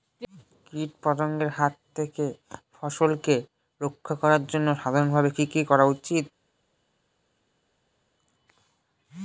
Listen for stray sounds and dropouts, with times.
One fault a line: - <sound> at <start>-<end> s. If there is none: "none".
none